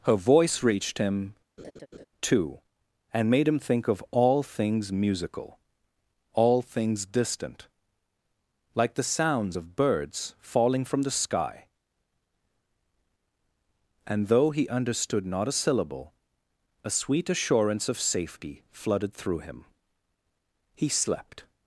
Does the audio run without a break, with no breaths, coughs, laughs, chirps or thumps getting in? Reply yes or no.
no